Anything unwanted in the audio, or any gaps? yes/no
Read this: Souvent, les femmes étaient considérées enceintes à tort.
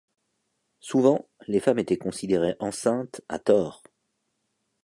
no